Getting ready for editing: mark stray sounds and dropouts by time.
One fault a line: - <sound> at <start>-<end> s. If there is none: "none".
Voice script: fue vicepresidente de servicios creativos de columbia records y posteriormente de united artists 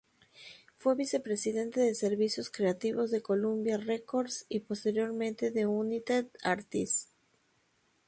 none